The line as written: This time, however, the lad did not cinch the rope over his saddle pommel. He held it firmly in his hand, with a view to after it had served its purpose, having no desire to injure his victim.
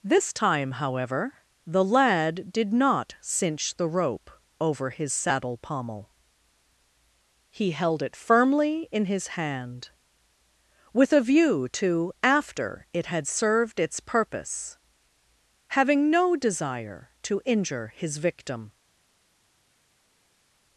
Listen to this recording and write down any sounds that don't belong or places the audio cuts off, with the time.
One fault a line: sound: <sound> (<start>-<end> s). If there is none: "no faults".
no faults